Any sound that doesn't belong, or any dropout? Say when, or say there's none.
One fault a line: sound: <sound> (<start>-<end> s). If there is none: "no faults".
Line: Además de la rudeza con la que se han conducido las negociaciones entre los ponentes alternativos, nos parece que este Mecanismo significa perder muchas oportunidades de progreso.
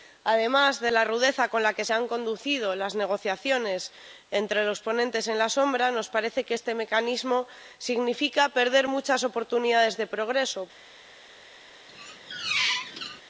sound: squeak (11.9-13.2 s)